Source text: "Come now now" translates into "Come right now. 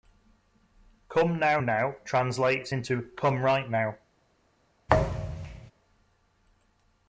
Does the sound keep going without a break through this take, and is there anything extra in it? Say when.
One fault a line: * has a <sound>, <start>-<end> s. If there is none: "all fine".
* has a thud, 4.9-5.7 s